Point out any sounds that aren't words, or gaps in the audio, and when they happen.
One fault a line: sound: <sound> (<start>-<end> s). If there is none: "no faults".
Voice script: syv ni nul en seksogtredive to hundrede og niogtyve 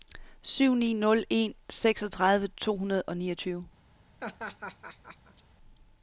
sound: laugh (4.2-5.4 s)